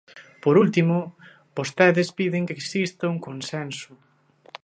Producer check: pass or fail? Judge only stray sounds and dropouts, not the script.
pass